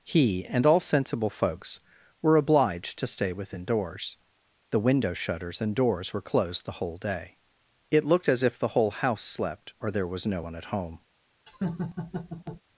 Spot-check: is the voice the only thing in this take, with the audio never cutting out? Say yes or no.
no